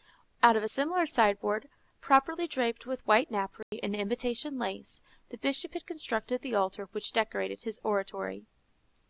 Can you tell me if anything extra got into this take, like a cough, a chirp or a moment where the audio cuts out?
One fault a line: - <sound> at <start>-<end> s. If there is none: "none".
- dropout at 3.6-3.7 s